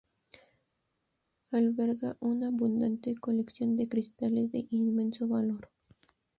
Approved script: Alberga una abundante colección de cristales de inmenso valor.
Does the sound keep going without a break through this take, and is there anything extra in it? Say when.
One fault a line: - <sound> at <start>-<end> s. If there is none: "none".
none